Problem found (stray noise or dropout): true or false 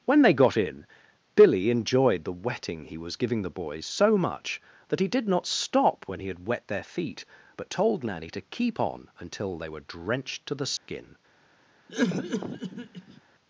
true